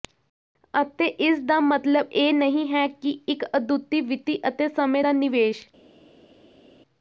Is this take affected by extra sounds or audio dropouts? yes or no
no